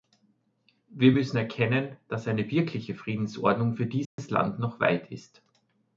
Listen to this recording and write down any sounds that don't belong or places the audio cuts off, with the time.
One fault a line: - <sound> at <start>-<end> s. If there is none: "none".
- dropout at 4.0-4.2 s